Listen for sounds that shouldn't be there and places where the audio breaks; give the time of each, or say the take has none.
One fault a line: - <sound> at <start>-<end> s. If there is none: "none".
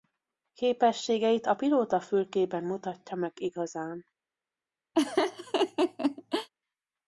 - laugh at 4.9-6.5 s